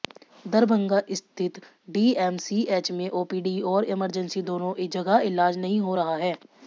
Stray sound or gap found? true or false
false